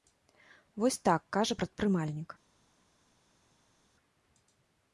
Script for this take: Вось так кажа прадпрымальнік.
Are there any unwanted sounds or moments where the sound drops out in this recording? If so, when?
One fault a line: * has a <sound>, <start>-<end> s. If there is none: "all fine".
all fine